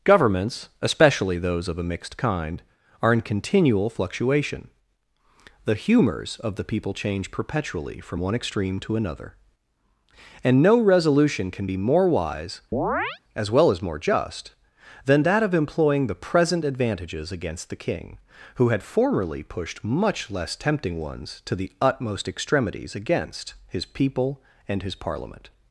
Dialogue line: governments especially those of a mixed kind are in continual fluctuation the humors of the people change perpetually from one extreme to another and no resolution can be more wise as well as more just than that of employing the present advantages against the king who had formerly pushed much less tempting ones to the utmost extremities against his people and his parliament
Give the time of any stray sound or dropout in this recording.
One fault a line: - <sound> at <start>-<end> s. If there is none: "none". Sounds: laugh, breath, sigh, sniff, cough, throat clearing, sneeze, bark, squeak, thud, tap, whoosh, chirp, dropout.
- chirp at 12.7-13.2 s